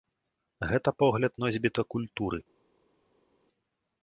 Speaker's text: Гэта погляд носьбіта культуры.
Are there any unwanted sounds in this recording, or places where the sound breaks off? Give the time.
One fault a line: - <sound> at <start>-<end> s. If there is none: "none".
none